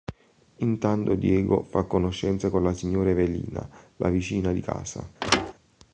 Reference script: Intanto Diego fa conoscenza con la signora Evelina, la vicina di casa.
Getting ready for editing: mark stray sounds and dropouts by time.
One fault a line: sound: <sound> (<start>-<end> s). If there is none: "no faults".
sound: thud (5.2-5.5 s)